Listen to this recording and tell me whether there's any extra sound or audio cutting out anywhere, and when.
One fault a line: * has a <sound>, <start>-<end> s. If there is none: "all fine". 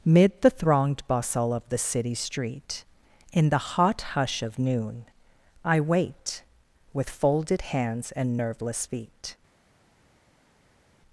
all fine